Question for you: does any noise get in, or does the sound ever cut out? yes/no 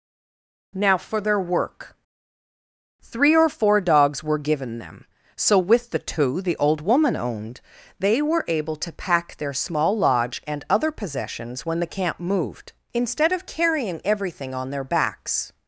no